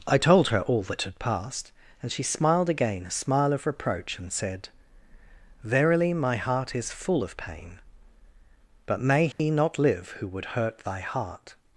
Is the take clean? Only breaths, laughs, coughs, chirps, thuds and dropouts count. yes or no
no